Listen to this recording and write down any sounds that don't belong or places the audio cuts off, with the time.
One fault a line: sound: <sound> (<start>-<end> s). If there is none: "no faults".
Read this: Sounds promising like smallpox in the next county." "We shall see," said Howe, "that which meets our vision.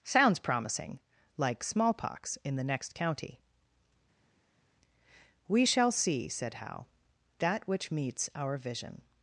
no faults